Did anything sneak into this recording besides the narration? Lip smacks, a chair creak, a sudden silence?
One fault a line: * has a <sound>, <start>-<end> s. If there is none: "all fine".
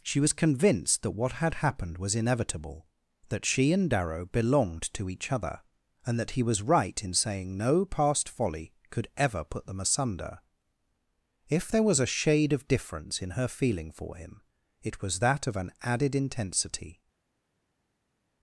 all fine